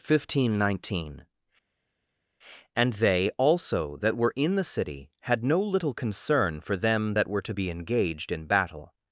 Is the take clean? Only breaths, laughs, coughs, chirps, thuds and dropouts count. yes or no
yes